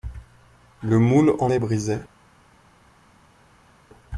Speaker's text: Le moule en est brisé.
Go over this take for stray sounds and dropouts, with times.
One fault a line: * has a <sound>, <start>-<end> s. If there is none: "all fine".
all fine